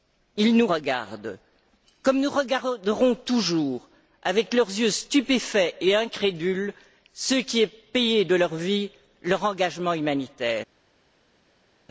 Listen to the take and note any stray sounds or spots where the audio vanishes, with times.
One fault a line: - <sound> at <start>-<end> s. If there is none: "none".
none